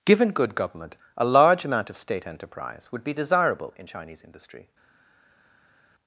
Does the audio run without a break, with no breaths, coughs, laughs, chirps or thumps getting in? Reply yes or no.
yes